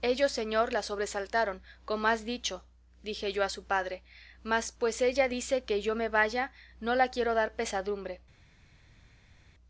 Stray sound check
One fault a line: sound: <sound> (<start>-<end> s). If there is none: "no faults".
no faults